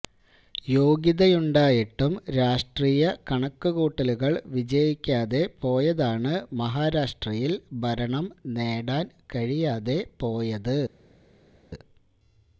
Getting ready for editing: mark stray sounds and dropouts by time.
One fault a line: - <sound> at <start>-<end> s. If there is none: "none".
none